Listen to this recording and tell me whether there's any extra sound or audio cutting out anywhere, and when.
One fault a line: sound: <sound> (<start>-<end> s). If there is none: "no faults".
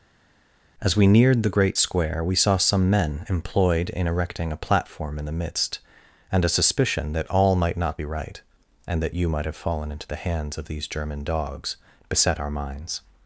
no faults